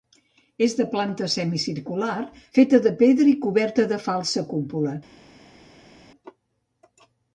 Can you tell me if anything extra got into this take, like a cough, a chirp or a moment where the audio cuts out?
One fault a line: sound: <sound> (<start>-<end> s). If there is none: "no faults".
no faults